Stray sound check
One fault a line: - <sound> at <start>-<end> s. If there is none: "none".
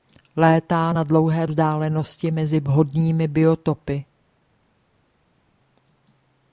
none